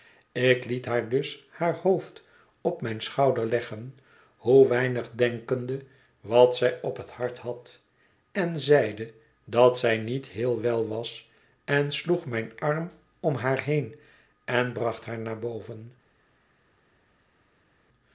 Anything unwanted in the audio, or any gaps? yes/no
no